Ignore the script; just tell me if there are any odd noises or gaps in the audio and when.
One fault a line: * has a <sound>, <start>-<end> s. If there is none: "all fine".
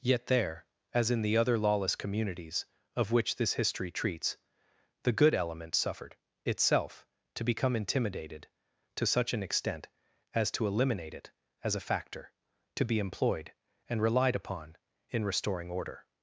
all fine